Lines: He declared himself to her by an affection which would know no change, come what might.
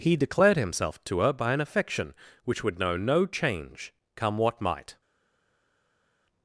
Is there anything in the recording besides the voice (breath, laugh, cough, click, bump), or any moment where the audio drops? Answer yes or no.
no